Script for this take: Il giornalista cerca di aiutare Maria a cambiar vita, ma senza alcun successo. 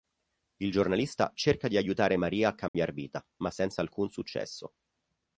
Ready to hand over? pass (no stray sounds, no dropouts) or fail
fail